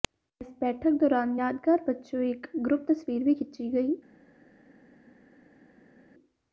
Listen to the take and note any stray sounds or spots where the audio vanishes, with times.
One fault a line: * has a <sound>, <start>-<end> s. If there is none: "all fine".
all fine